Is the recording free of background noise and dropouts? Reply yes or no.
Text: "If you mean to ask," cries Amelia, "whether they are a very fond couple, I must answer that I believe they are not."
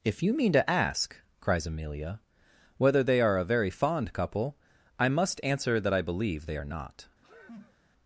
no